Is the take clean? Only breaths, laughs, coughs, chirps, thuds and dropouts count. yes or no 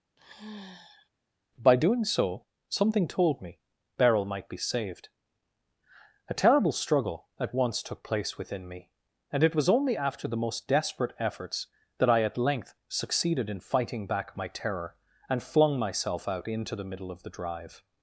no